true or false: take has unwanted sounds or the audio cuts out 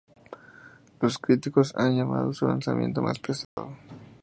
true